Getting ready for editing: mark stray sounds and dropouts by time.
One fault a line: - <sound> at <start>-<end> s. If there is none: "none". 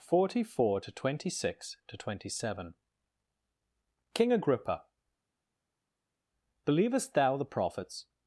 none